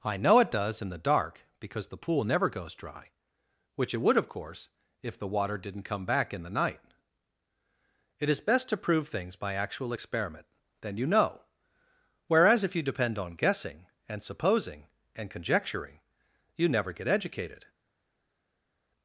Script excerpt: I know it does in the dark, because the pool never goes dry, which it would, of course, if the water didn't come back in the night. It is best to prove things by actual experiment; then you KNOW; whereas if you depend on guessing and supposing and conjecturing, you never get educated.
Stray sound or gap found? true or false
false